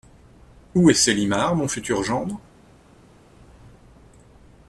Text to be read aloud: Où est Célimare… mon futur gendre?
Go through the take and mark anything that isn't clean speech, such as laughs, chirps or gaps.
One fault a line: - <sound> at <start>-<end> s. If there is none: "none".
none